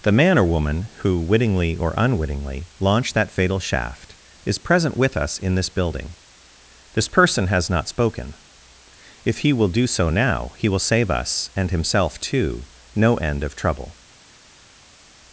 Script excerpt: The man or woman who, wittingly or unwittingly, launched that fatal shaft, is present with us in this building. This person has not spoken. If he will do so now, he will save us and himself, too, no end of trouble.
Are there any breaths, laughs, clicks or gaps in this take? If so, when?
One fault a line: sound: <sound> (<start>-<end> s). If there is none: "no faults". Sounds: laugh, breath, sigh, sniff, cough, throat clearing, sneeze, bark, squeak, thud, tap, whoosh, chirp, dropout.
no faults